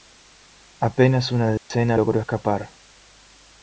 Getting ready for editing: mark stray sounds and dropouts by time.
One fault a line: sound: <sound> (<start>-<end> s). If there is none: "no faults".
sound: dropout (1.6-1.7 s)